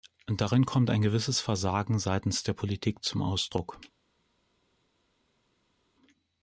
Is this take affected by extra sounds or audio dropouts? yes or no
no